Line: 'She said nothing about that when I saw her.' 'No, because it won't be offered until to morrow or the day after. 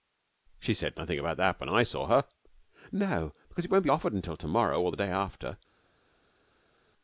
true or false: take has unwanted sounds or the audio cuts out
false